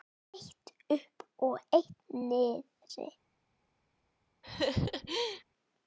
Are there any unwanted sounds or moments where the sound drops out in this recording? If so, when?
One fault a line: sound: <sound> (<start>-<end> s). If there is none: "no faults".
sound: laugh (4.4-5.4 s)